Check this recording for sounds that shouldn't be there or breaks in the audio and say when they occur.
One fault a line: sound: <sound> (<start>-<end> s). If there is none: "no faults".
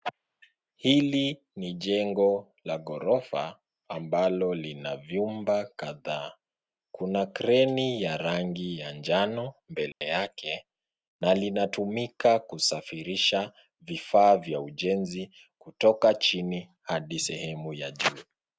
sound: dropout (9.9-10.0 s)